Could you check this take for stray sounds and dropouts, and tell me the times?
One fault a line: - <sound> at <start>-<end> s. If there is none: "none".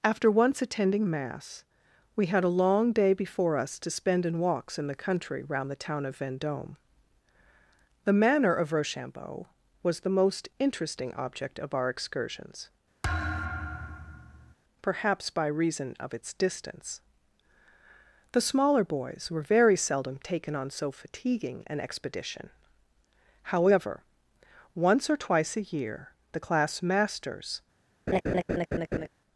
- thud at 13.0-14.5 s
- laugh at 28.1-29.1 s